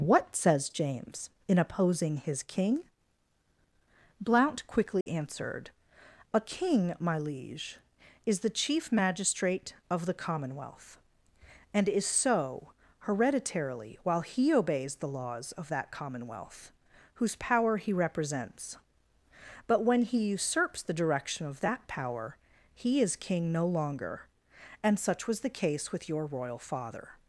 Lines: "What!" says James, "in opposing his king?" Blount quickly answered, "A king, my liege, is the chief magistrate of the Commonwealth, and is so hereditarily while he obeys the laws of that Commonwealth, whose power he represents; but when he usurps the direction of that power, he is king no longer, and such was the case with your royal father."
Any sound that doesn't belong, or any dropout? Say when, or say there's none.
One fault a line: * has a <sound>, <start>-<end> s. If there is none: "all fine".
* has a dropout, 5.0-5.1 s